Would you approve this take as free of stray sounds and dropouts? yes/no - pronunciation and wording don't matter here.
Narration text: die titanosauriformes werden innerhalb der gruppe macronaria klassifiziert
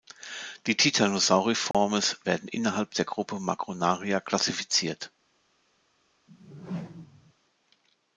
no